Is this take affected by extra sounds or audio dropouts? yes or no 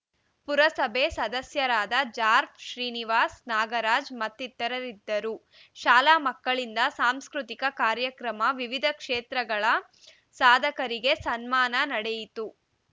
no